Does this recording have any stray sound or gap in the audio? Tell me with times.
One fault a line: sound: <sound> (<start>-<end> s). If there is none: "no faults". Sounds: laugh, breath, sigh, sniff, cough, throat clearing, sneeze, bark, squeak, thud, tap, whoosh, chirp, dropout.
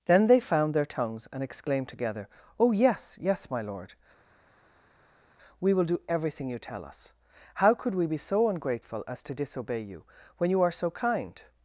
no faults